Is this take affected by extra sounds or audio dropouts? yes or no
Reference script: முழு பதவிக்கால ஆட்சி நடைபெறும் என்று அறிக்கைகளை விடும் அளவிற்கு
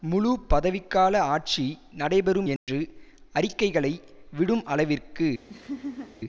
yes